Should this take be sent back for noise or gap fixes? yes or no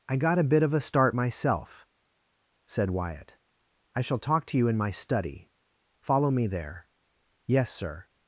no